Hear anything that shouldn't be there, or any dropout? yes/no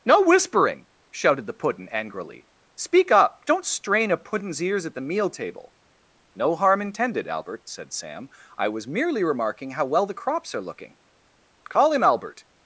no